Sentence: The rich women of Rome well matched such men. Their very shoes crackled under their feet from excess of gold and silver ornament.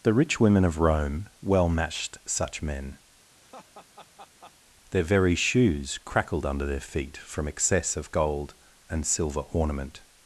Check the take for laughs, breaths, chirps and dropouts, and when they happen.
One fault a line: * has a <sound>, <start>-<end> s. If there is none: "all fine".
* has a laugh, 3.3-4.5 s